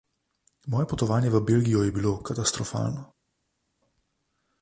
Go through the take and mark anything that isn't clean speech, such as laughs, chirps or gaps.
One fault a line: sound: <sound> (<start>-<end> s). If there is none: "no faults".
no faults